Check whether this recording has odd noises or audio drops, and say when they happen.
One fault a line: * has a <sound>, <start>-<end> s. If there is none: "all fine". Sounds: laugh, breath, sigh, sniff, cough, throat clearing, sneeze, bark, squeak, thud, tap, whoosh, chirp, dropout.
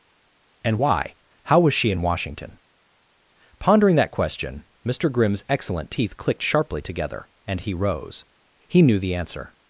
all fine